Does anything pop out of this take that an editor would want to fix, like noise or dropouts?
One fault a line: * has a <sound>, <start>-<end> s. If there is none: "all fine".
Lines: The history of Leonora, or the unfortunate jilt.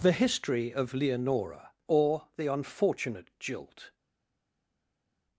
all fine